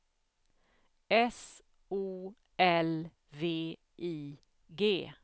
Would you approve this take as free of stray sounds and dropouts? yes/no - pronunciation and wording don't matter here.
yes